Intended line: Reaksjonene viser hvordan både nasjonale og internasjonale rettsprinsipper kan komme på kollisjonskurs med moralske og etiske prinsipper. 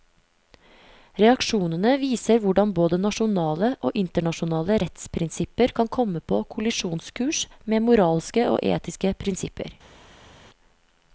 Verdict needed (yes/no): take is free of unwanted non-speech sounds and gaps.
yes